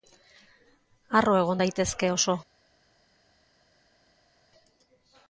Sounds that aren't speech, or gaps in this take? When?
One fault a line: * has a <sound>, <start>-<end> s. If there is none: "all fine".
all fine